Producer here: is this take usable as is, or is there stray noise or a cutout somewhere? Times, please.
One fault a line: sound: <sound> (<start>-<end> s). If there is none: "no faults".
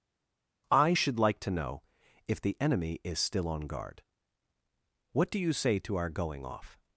no faults